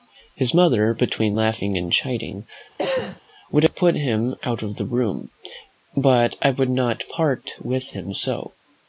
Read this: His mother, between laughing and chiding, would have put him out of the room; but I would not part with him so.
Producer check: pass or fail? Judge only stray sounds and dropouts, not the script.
fail